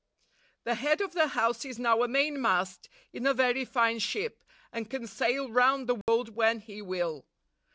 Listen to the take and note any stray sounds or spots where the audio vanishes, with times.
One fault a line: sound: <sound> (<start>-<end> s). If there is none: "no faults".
sound: dropout (6.0-6.1 s)